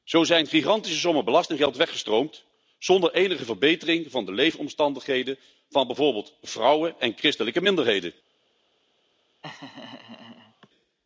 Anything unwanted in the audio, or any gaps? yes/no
yes